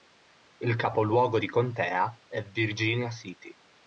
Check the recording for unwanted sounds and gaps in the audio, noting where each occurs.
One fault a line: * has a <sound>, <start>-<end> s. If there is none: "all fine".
all fine